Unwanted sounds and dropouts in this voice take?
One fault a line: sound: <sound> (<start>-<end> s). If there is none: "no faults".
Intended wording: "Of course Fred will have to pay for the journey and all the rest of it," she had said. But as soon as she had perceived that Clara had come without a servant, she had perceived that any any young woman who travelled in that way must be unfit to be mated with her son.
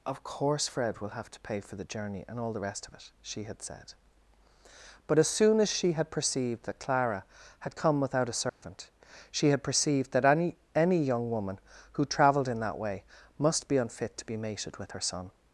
sound: dropout (8.5-8.6 s)